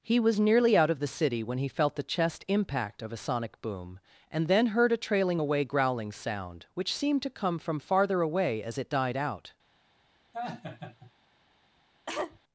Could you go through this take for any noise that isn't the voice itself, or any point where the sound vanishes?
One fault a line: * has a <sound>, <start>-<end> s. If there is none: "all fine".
* has a laugh, 10.3-11.1 s
* has a cough, 12.1-12.4 s